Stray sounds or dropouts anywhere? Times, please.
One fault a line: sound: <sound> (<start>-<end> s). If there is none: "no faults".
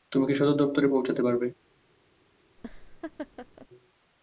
sound: laugh (2.6-3.7 s)